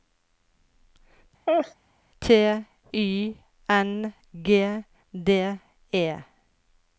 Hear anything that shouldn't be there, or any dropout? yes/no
yes